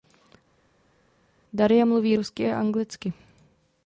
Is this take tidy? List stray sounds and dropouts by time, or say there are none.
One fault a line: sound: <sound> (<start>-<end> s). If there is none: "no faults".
no faults